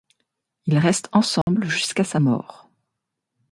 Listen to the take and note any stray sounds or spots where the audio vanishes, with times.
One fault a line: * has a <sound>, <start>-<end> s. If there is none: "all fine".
* has a dropout, 1.4-1.5 s